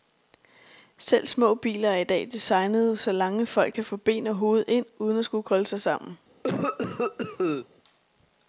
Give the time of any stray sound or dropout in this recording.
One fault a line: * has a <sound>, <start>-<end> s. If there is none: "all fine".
* has a cough, 6.4-7.7 s